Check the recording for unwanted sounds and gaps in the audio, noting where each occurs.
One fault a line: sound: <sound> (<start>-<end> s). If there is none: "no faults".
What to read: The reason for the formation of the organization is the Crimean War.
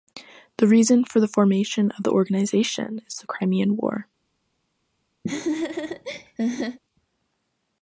sound: laugh (5.2-6.8 s)